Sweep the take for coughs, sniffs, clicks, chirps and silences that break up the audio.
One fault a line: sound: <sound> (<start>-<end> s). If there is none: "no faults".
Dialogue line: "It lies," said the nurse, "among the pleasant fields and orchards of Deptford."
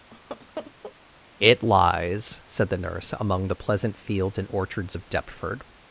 sound: laugh (0.1-1.0 s)